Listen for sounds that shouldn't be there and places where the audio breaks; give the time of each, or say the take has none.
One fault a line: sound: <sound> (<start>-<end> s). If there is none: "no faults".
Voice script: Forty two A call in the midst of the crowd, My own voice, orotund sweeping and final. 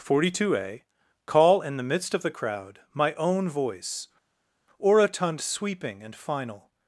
no faults